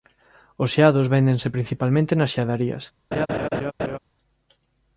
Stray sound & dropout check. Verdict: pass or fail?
fail